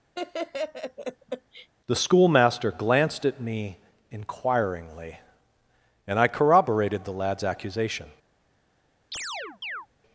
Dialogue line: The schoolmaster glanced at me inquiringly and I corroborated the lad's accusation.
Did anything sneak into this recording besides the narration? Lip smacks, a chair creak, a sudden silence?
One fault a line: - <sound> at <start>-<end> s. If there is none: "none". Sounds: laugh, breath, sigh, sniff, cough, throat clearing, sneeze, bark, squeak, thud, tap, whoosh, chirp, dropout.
- laugh at 0.1-1.7 s
- chirp at 9.1-9.9 s